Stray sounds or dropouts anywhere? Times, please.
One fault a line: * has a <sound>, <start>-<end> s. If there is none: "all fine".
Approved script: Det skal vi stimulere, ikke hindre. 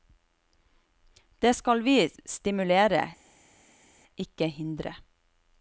all fine